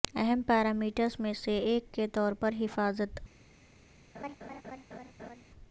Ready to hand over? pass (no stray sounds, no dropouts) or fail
fail